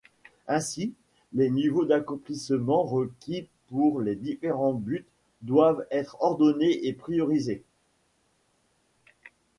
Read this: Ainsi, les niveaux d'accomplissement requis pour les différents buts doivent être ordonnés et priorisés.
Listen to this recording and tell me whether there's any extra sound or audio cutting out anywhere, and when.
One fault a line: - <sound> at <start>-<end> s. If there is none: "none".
none